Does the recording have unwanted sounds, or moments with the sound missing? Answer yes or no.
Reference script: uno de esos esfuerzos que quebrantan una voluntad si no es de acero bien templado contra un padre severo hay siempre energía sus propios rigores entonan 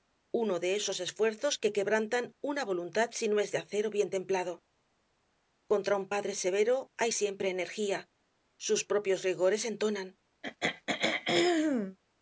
yes